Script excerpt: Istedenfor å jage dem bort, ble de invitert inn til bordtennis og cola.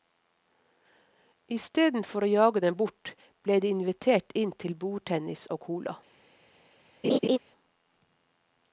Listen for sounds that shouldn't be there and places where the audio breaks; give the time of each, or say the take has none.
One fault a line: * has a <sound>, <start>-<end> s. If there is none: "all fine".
* has a laugh, 7.0-7.4 s